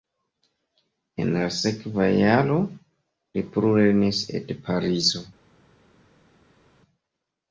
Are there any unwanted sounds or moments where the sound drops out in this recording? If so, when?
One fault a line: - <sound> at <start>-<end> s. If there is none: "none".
none